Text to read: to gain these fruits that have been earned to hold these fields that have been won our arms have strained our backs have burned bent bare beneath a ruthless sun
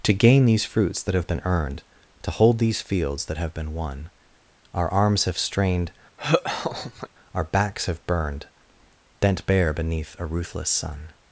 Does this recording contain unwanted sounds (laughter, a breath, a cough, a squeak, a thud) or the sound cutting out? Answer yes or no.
yes